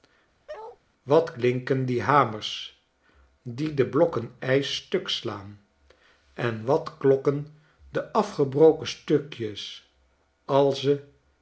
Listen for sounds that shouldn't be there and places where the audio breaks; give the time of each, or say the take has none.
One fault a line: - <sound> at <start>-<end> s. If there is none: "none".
- bark at 0.5-0.8 s